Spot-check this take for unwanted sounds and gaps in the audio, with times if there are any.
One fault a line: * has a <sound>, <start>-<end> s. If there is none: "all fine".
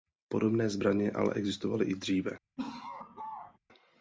* has a laugh, 2.6-3.6 s